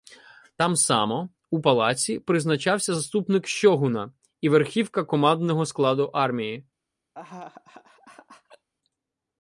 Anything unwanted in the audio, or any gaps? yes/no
yes